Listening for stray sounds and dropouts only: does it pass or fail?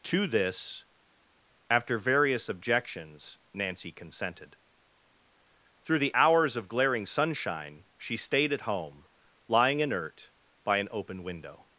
pass